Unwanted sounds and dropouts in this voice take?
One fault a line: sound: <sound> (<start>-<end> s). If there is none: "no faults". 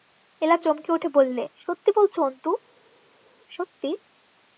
no faults